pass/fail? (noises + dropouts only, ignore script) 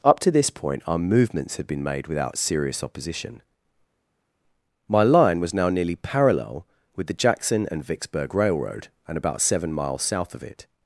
pass